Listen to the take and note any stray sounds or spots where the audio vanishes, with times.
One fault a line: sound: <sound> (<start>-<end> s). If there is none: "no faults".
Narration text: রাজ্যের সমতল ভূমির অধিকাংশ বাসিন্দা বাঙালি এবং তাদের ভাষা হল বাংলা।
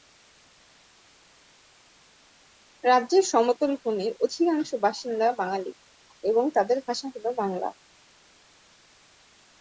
no faults